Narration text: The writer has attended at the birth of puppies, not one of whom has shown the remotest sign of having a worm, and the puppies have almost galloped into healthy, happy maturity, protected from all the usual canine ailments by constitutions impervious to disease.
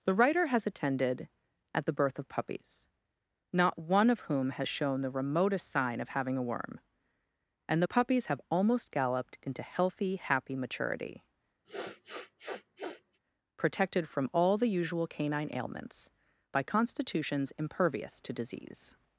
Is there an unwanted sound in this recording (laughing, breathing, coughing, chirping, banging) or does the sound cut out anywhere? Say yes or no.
yes